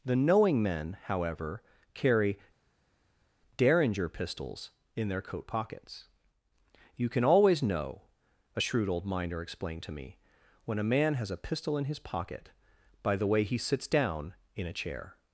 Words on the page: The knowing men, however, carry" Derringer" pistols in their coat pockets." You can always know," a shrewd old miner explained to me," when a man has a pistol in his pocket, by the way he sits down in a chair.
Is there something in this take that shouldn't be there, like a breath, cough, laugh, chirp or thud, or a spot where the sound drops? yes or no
no